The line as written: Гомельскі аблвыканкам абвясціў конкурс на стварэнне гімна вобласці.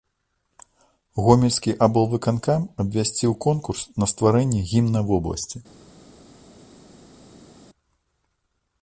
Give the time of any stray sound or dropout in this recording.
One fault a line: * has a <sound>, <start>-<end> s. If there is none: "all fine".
all fine